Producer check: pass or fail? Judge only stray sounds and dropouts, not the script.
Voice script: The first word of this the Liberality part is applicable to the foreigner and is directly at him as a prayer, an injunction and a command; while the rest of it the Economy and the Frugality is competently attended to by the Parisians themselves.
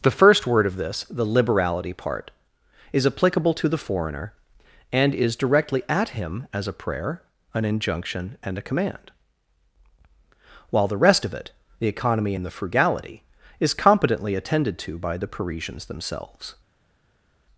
pass